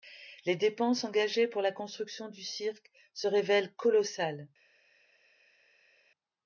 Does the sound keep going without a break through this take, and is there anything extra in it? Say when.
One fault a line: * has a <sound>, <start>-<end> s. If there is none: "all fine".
all fine